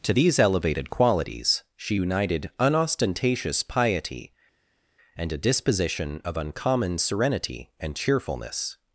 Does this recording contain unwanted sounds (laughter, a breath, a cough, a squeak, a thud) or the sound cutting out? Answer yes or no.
no